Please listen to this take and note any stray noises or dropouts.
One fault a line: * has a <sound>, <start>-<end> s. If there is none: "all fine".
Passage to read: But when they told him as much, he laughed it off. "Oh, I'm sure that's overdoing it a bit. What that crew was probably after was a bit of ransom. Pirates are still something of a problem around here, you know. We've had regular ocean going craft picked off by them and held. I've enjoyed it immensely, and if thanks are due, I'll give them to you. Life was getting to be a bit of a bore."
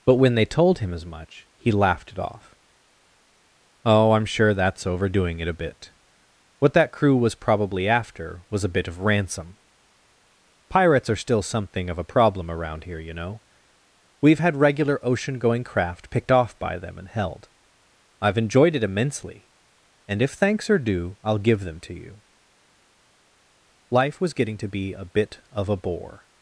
all fine